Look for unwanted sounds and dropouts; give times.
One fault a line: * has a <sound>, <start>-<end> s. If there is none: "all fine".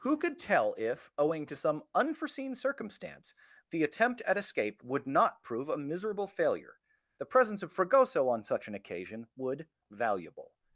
all fine